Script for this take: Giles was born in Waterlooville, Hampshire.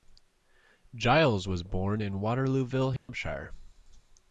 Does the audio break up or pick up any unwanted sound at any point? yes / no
yes